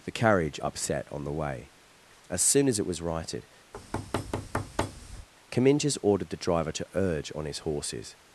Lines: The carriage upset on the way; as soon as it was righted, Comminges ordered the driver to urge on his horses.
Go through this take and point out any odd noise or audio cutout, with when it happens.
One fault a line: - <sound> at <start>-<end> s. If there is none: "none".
- thud at 3.7-5.3 s